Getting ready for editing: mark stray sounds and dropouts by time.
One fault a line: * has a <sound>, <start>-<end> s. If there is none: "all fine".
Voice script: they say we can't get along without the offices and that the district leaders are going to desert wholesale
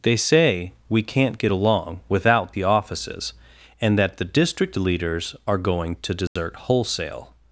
* has a dropout, 6.3-6.4 s